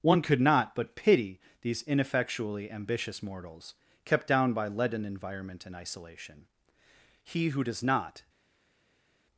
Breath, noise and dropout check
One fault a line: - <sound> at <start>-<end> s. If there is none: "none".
none